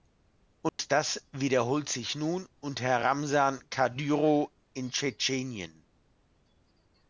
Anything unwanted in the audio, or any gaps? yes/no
yes